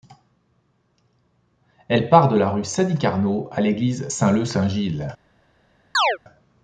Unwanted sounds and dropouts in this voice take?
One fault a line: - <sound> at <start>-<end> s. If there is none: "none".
- chirp at 5.9-6.2 s